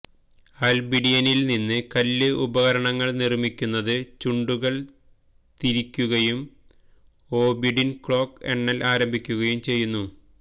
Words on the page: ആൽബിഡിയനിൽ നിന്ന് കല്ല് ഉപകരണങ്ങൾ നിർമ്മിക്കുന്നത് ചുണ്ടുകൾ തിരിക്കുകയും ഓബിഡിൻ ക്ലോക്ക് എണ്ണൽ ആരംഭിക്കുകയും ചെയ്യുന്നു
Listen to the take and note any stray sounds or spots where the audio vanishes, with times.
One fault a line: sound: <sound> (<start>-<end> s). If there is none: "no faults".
no faults